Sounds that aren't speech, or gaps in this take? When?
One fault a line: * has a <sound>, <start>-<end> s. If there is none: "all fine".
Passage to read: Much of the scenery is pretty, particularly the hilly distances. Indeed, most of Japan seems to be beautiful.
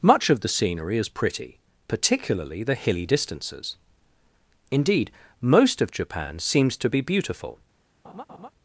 * has a laugh, 8.0-8.5 s